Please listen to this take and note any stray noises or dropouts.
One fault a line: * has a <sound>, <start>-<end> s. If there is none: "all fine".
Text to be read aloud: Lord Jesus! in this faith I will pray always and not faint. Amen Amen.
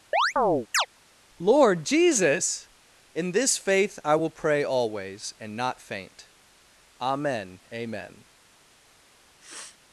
* has a chirp, 0.1-0.9 s
* has a sniff, 9.4-9.8 s